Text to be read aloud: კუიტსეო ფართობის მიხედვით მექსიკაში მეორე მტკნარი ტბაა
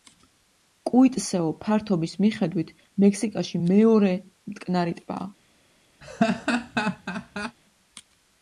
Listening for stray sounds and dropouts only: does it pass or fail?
fail